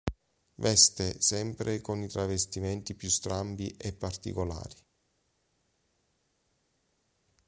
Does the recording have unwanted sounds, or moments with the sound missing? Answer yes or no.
no